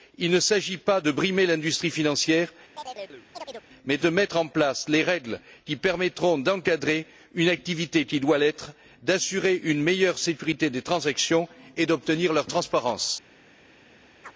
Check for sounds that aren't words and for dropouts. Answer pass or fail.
fail